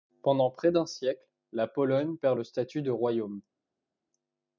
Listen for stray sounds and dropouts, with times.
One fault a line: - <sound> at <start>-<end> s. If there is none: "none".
none